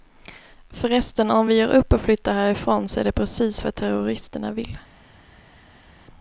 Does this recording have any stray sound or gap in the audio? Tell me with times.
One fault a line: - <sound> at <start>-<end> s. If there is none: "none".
none